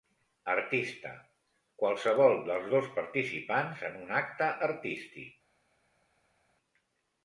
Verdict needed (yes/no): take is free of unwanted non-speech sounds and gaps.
yes